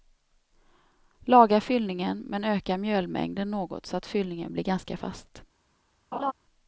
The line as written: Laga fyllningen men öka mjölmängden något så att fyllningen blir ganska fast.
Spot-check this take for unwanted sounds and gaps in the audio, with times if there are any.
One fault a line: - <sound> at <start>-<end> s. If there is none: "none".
- laugh at 6.1-6.3 s